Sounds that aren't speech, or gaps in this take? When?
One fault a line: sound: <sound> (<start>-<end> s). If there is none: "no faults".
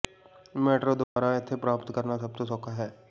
sound: dropout (1.0-1.2 s)